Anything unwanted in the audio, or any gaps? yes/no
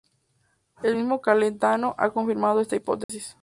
yes